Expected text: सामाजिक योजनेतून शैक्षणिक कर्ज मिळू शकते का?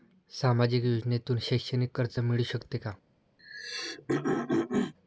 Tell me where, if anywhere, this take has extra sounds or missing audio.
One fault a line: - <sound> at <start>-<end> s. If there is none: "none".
- throat clearing at 3.4-4.9 s